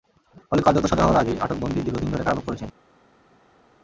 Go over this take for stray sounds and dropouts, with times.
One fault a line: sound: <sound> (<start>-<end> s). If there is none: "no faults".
no faults